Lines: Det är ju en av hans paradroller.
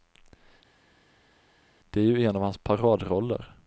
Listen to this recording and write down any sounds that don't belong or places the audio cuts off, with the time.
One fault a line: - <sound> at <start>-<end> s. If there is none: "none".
none